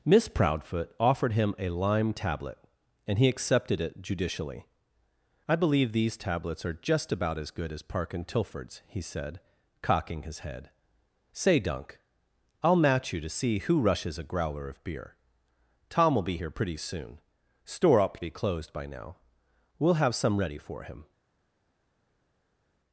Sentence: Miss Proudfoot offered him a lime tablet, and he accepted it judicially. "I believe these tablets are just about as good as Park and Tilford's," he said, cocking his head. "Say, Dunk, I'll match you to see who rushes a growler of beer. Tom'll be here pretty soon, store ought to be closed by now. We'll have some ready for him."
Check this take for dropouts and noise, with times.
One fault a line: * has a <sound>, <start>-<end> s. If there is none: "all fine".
all fine